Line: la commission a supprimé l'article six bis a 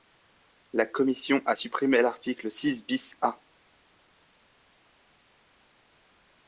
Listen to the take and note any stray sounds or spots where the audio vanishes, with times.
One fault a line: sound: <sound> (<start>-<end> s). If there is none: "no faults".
no faults